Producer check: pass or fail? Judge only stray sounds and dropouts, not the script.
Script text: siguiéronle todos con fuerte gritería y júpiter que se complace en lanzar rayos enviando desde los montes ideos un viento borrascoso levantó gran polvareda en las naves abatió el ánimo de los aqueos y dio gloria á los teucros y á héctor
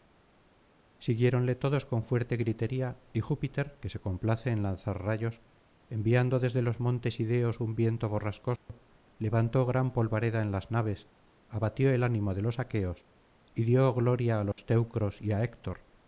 fail